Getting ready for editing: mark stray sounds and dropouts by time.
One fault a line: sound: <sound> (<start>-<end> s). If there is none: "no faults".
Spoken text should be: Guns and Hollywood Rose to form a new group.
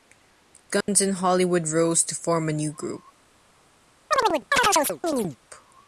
sound: dropout (0.8-0.9 s)
sound: chirp (4.1-5.4 s)